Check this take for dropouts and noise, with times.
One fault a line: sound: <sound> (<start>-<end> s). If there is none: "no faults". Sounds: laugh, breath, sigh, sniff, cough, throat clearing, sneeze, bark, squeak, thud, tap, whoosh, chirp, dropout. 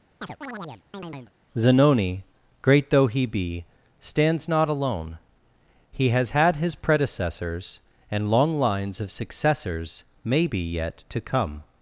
sound: chirp (0.2-1.3 s)